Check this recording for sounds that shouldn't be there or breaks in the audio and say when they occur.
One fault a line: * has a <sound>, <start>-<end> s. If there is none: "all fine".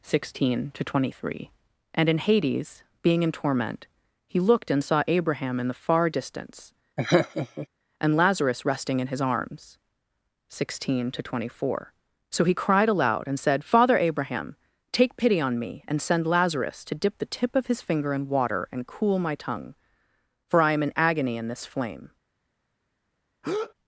* has a laugh, 7.0-7.7 s
* has a breath, 23.4-23.7 s